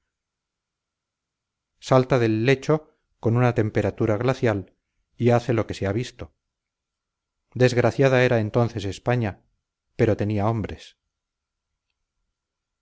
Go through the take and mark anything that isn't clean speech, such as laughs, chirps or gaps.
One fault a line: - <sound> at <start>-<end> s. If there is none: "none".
none